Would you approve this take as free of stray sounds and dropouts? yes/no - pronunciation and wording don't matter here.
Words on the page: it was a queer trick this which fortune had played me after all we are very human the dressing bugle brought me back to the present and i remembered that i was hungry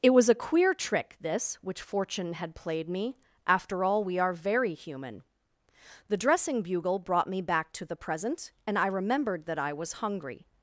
yes